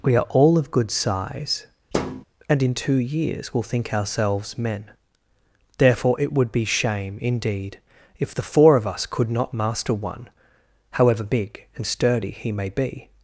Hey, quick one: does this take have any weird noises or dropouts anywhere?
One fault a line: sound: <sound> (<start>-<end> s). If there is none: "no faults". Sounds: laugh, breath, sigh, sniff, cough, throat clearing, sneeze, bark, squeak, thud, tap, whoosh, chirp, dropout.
sound: thud (1.9-2.3 s)